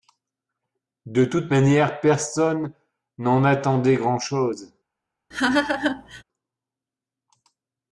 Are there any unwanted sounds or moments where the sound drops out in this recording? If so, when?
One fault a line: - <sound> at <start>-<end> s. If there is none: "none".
- laugh at 5.3-6.2 s